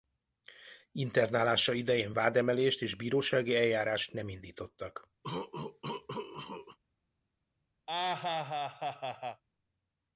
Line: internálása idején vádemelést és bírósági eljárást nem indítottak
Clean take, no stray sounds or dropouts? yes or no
no